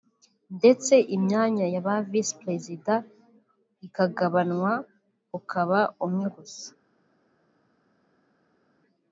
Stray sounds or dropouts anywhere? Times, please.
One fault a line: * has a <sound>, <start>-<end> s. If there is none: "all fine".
all fine